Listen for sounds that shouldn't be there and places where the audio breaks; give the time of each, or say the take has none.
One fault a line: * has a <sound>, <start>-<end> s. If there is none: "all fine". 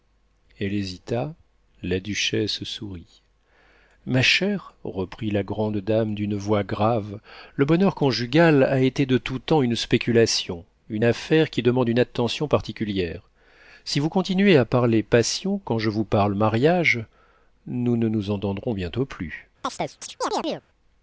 * has a chirp, 19.6-20.7 s